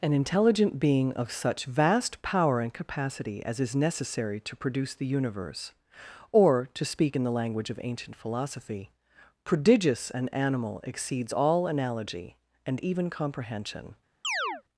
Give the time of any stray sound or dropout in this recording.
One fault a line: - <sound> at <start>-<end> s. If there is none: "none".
- chirp at 14.2-14.6 s